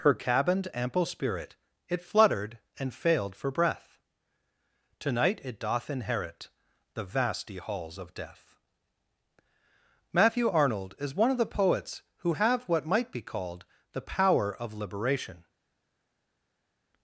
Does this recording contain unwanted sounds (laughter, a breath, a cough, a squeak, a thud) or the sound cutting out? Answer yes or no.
no